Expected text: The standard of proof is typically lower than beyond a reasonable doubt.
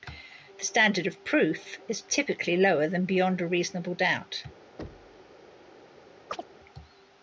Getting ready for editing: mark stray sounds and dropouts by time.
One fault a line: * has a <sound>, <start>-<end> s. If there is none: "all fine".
* has a thud, 4.8-5.3 s
* has a chirp, 6.3-6.4 s